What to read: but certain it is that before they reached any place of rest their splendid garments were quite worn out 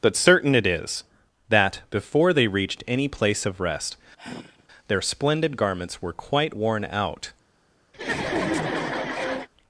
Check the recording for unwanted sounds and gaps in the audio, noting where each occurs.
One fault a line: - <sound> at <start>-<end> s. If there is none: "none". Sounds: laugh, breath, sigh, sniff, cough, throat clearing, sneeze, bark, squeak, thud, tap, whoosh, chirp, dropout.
- sigh at 4.2-4.7 s
- laugh at 7.9-9.5 s